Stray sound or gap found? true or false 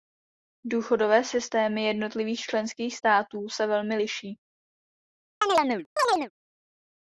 true